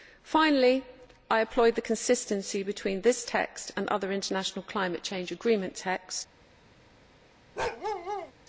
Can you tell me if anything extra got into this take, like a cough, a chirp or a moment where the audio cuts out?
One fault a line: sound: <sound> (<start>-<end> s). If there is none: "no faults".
sound: bark (7.6-8.3 s)